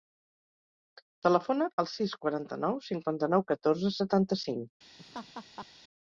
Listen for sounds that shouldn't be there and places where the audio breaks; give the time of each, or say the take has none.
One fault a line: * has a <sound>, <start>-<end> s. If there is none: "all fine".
* has a laugh, 5.0-5.7 s